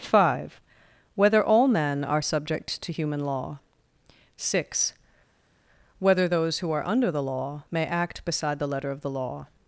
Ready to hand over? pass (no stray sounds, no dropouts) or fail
pass